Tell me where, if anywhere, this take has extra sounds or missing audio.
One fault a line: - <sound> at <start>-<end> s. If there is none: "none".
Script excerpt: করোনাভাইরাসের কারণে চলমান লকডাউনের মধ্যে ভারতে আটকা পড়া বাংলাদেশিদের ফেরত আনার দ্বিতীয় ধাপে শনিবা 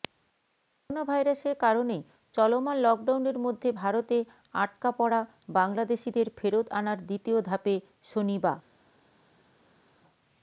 none